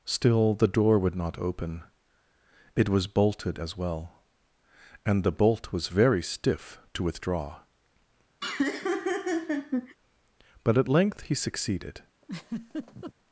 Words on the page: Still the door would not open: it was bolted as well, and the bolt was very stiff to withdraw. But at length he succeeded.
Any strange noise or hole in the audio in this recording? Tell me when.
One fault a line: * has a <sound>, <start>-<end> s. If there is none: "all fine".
* has a laugh, 8.4-10.0 s
* has a laugh, 12.2-13.1 s